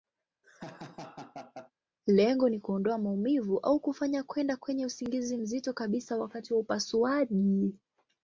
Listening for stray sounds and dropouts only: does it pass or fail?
fail